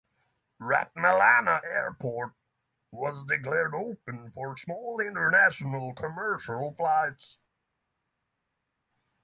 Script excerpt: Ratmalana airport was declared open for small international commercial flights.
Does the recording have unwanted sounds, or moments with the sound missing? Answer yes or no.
no